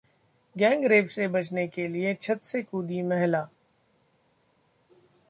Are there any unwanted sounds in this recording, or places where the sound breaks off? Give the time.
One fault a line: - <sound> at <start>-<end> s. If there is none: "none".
none